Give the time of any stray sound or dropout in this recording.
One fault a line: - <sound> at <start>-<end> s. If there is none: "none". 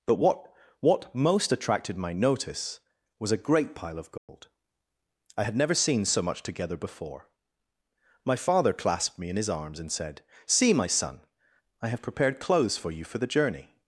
- dropout at 4.2-4.3 s